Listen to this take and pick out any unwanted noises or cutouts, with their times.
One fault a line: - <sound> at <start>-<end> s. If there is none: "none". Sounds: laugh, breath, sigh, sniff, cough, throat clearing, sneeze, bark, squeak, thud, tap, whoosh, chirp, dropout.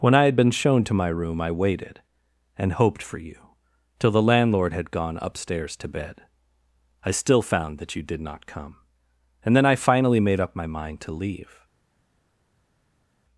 none